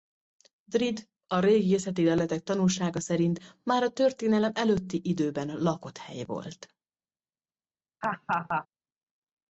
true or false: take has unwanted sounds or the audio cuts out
true